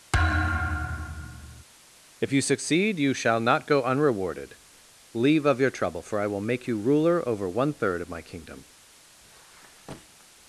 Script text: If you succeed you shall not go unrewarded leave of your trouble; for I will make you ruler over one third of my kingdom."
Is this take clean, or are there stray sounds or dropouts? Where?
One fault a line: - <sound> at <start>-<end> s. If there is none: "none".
- thud at 0.1-1.6 s
- squeak at 9.2-10.3 s